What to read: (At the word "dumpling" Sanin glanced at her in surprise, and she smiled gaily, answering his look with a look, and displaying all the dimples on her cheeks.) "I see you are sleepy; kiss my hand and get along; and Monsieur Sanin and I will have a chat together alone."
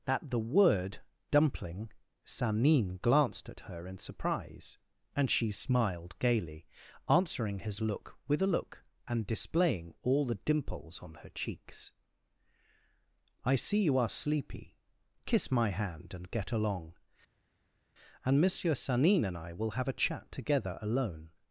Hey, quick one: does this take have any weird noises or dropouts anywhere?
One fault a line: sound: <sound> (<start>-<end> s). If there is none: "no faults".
no faults